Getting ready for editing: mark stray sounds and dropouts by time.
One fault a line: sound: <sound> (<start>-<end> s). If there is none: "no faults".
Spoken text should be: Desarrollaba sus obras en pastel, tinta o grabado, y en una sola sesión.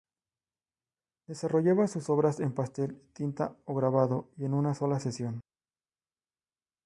no faults